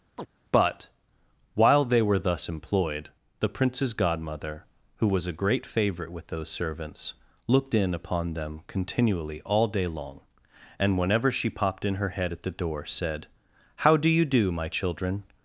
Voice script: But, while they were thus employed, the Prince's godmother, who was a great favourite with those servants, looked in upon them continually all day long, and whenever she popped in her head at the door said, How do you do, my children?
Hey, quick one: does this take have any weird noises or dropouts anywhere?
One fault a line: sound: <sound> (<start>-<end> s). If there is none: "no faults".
sound: chirp (0.2-0.3 s)